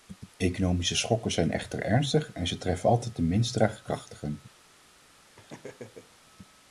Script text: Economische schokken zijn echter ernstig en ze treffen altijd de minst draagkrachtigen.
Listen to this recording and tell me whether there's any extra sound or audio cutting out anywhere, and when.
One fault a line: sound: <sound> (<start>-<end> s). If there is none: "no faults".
sound: laugh (5.3-6.2 s)